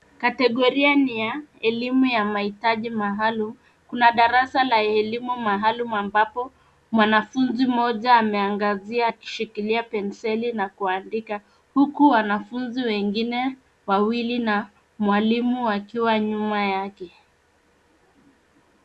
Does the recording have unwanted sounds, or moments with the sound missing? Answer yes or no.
no